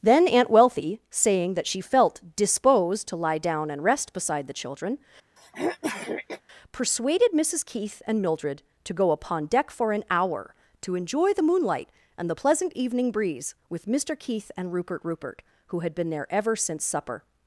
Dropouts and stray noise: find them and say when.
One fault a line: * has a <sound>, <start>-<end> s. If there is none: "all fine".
* has a throat clearing, 5.4-6.4 s